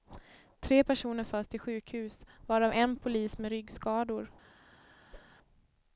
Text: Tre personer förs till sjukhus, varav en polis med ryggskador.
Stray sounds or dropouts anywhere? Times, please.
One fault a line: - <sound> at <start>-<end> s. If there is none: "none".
- whoosh at 5.1-5.4 s